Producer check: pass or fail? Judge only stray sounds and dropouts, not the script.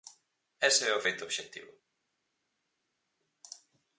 pass